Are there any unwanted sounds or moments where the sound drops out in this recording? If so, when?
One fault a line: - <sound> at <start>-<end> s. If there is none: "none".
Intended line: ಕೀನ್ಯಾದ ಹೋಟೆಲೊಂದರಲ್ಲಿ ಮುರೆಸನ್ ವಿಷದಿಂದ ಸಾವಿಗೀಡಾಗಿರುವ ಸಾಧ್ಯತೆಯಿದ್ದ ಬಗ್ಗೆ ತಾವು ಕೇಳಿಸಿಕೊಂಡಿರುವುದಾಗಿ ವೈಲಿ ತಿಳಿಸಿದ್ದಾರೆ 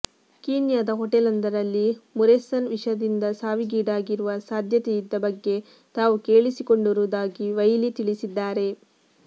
none